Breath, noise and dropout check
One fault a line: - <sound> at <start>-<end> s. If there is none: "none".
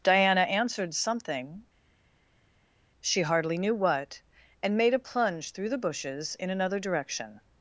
none